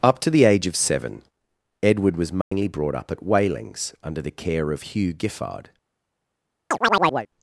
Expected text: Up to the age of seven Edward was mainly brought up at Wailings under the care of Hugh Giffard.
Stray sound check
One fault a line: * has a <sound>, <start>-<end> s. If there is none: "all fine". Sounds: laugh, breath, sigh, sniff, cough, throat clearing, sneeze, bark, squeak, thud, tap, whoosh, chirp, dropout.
* has a dropout, 2.4-2.5 s
* has a chirp, 6.7-7.3 s